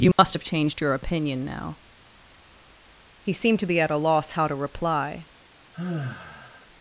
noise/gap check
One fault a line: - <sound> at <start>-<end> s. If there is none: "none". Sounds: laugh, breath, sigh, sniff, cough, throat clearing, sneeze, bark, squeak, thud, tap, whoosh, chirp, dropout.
- dropout at 0.1-0.2 s
- sigh at 5.7-6.7 s